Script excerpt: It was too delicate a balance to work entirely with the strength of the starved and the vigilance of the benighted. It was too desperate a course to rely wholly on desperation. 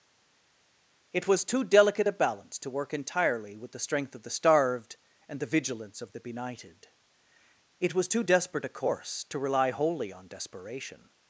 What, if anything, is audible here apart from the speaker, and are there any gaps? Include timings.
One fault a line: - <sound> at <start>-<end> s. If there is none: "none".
none